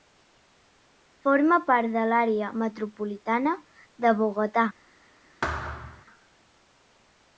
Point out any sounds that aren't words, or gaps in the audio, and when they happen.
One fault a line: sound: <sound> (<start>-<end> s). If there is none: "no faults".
sound: thud (5.4-6.1 s)